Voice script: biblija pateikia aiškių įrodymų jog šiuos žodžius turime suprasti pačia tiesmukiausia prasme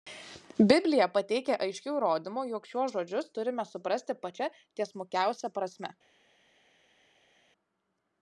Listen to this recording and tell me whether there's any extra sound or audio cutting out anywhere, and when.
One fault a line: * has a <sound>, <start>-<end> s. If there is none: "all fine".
all fine